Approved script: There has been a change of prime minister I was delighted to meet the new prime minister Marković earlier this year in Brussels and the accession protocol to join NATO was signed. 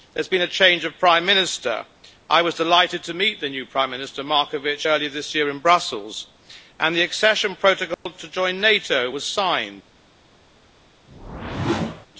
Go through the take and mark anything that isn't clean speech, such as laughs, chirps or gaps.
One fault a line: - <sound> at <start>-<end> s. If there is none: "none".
- dropout at 7.9-8.1 s
- whoosh at 11.1-12.1 s